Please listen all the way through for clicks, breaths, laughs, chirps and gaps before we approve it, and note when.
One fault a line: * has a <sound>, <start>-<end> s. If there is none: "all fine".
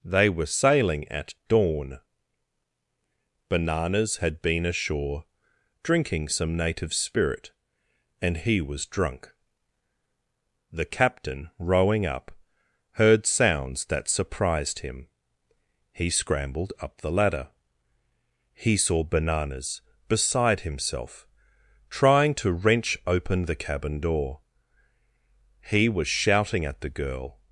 all fine